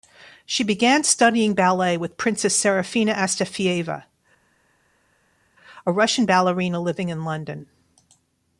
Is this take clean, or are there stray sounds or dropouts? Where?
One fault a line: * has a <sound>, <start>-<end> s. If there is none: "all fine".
all fine